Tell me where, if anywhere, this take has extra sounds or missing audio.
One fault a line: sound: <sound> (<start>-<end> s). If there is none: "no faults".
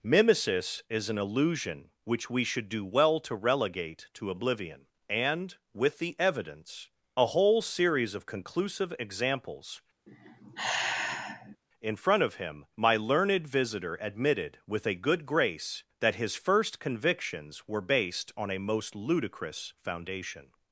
sound: sigh (10.1-11.6 s)